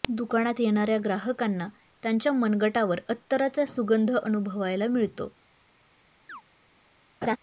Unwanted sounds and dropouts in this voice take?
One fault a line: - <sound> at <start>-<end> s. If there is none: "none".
- chirp at 6.3-6.4 s
- laugh at 7.2-7.4 s